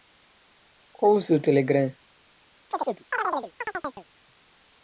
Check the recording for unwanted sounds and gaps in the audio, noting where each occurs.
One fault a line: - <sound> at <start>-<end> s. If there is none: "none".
- chirp at 2.7-4.1 s